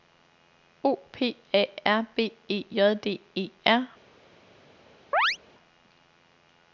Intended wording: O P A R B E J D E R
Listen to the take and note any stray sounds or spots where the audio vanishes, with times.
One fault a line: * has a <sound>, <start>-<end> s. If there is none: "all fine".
* has a chirp, 5.1-5.4 s